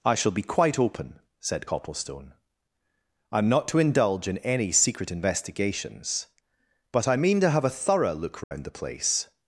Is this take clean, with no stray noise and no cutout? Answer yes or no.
no